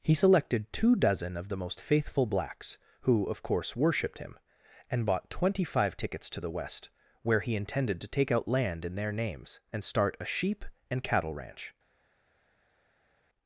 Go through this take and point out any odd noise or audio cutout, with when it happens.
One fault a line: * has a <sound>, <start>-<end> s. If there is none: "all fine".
all fine